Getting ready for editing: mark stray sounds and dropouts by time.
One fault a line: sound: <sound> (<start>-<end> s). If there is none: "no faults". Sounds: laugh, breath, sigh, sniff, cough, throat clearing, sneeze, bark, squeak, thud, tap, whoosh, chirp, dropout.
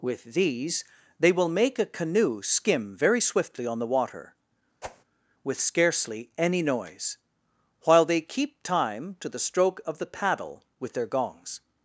sound: whoosh (4.8-5.0 s)